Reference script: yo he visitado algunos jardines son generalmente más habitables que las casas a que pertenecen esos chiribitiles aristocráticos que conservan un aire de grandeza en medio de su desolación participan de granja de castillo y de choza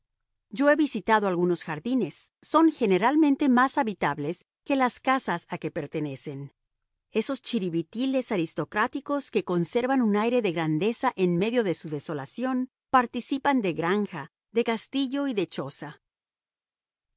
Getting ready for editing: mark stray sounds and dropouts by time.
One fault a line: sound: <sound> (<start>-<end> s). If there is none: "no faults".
no faults